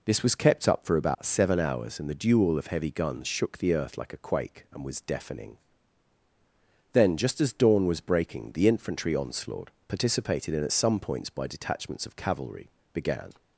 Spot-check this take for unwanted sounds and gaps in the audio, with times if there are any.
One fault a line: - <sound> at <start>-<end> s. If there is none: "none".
- dropout at 1.1-1.2 s